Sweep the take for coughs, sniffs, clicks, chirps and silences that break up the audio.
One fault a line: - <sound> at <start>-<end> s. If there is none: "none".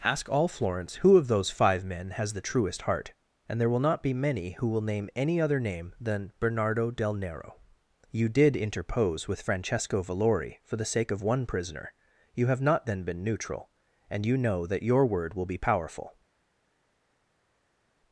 none